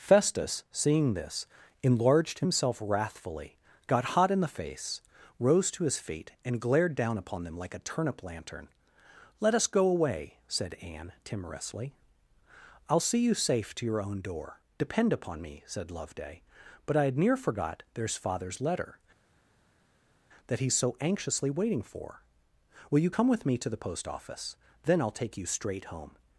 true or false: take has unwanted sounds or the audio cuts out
false